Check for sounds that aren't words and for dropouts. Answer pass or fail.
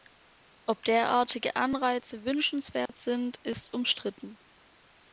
fail